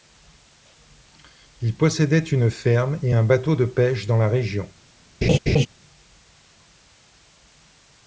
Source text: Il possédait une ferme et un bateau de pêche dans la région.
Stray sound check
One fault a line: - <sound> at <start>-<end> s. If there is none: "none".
- laugh at 5.2-5.7 s